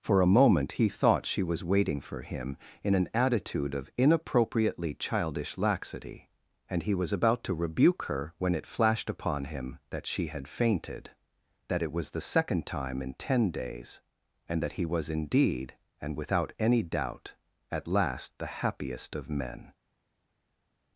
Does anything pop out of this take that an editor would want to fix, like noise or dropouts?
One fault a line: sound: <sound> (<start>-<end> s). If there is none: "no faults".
no faults